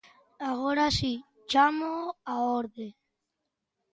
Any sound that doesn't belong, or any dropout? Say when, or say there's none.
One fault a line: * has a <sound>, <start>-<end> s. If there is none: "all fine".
all fine